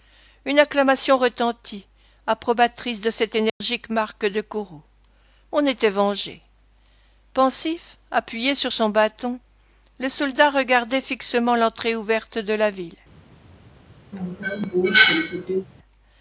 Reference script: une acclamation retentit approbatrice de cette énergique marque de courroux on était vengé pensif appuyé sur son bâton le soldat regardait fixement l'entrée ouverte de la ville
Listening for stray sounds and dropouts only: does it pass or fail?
fail